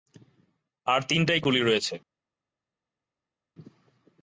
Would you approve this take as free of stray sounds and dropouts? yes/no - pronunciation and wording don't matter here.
yes